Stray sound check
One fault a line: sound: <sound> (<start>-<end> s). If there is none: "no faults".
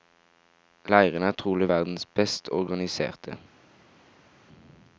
no faults